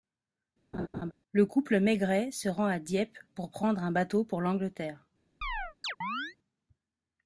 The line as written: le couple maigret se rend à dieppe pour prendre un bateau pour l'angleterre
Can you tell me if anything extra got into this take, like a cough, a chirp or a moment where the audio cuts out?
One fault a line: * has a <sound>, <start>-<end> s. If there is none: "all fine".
* has a laugh, 0.7-1.1 s
* has a chirp, 5.4-6.4 s